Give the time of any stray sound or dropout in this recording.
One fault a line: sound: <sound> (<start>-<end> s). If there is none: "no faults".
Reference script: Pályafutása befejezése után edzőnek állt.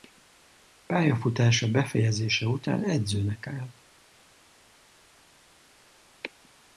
no faults